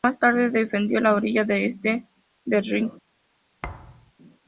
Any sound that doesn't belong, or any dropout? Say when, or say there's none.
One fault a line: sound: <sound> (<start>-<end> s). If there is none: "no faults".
sound: thud (3.6-4.1 s)